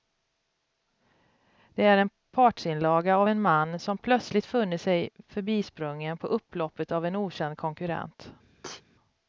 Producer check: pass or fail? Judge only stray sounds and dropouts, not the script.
fail